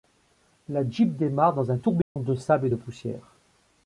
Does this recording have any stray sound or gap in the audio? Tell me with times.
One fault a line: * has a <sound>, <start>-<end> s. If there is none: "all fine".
* has a dropout, 2.0-2.2 s